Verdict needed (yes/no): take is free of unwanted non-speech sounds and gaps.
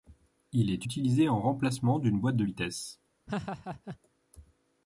no